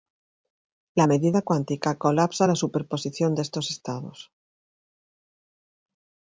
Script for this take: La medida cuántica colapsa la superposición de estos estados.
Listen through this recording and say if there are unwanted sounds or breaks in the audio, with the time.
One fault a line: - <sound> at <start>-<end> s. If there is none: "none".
none